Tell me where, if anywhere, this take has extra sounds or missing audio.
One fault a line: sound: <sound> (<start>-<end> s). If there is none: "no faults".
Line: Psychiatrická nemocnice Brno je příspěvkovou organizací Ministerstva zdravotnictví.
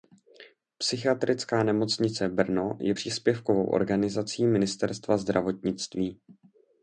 no faults